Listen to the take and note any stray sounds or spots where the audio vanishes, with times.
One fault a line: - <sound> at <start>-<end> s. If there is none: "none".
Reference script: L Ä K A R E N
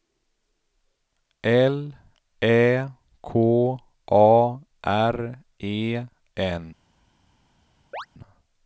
- chirp at 7.9-8.1 s